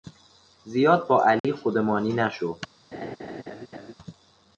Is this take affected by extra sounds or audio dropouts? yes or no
yes